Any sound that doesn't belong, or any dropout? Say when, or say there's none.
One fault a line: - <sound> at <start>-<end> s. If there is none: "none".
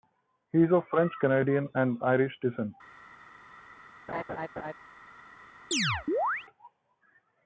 - laugh at 4.1-4.7 s
- chirp at 5.7-6.5 s